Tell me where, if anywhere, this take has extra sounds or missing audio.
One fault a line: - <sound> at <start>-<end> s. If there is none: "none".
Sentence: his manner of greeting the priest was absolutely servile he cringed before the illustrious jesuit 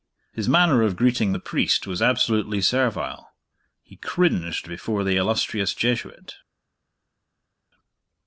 none